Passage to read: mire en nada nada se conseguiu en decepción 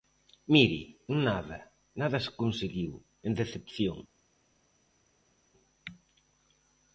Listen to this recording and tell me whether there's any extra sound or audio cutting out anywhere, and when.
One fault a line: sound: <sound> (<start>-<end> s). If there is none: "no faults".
no faults